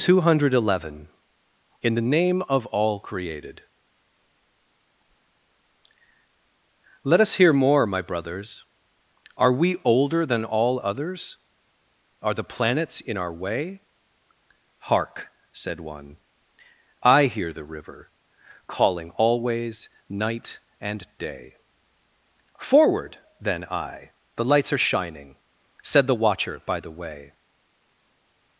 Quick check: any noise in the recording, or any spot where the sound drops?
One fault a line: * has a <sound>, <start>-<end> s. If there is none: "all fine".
all fine